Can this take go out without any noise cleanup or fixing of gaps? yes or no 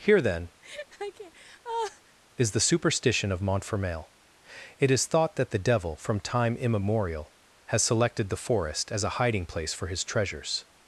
no